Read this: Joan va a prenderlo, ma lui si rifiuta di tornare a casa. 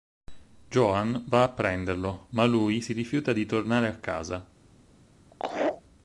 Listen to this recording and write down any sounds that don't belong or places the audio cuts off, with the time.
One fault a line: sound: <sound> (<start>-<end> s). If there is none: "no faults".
sound: laugh (5.3-5.8 s)